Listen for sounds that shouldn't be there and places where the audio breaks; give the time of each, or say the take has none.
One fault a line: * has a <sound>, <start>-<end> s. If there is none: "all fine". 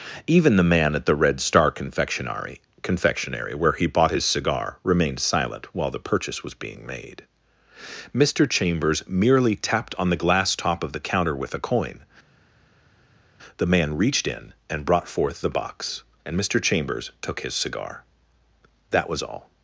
all fine